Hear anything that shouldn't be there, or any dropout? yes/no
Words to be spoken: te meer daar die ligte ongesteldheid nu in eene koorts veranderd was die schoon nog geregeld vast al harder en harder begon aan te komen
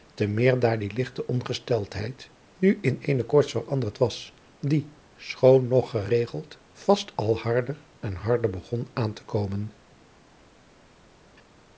no